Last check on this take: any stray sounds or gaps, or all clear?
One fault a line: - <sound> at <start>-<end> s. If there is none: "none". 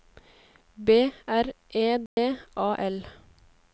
- dropout at 2.1-2.2 s